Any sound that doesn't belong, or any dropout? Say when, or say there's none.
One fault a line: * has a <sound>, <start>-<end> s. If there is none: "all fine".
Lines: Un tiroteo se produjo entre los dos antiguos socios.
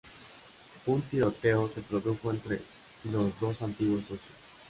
all fine